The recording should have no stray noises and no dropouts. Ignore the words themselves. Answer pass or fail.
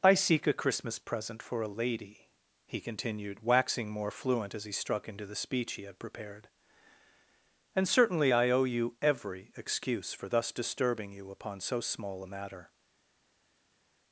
pass